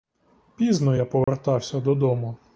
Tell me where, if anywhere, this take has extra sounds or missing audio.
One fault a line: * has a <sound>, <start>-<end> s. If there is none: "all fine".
* has a dropout, 1.2-1.3 s